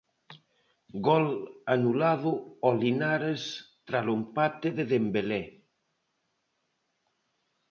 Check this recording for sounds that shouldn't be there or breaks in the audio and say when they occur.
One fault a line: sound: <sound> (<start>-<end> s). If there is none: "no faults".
no faults